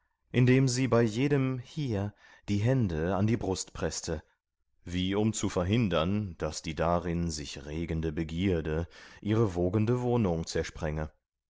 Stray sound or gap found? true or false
false